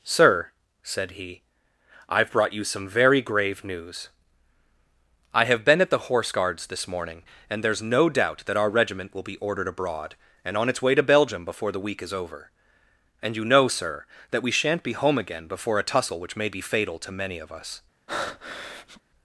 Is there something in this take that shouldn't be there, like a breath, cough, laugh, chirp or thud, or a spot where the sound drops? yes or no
yes